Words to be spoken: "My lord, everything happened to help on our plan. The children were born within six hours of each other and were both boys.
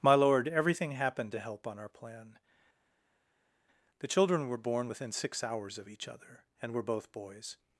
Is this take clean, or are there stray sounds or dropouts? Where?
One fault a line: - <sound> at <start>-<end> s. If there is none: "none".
none